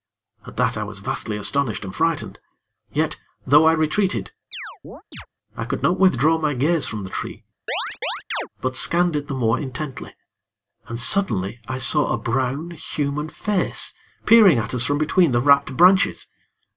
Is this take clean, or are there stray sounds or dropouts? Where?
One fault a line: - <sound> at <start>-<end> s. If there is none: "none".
- chirp at 4.5-5.3 s
- chirp at 7.7-8.5 s